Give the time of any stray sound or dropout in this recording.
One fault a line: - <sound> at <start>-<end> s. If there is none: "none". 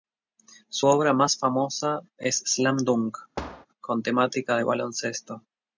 - thud at 3.4-3.7 s